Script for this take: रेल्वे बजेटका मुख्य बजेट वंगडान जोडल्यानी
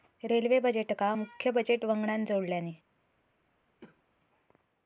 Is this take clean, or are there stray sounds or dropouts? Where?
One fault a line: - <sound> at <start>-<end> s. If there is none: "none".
- cough at 3.8-4.0 s